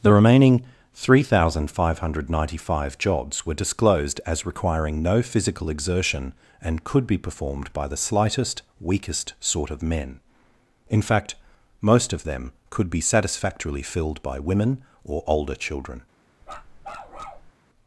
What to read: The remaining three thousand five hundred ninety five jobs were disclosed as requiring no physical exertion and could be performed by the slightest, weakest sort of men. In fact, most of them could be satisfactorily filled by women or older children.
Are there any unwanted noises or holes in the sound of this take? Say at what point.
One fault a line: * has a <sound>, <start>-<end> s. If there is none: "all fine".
* has a bark, 16.4-17.5 s